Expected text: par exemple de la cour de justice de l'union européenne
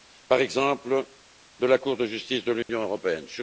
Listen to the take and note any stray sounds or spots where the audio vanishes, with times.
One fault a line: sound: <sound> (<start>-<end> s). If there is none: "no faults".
sound: dropout (2.6-2.7 s)